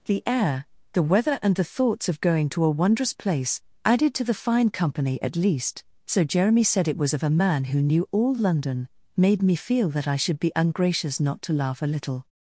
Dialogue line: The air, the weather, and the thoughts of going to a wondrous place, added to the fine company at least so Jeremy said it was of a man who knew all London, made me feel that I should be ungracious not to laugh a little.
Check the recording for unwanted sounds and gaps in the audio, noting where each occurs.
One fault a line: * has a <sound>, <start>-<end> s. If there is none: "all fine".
all fine